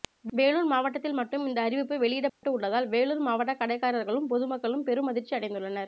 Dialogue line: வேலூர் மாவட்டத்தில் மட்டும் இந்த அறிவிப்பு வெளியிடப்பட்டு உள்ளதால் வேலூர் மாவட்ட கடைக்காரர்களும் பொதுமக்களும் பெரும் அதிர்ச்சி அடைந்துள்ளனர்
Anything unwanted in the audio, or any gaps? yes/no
yes